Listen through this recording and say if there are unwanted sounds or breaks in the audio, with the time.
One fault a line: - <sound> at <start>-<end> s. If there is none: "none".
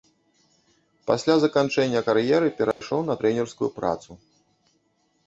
- dropout at 2.7-2.8 s